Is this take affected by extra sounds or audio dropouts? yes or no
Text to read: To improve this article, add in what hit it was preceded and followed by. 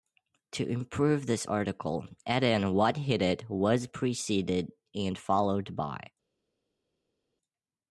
no